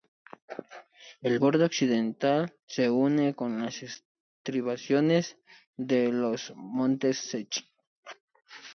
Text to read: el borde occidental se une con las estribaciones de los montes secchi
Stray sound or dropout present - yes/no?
no